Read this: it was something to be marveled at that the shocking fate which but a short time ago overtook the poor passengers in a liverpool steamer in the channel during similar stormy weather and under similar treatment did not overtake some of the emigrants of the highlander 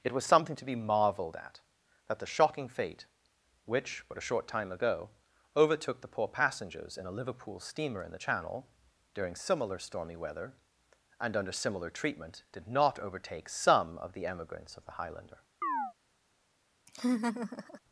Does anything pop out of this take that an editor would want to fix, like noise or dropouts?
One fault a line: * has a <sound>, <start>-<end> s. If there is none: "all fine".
* has a chirp, 15.6-15.9 s
* has a laugh, 16.9-17.8 s